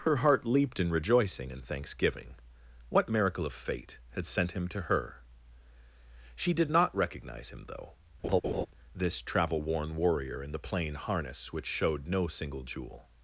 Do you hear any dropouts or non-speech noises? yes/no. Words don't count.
yes